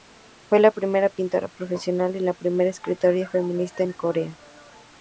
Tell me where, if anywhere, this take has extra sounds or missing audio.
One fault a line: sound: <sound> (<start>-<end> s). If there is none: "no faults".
no faults